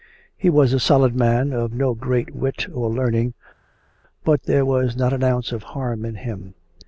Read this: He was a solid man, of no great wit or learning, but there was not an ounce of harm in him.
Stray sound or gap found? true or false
false